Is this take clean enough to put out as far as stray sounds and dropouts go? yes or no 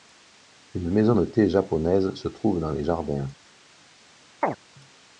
no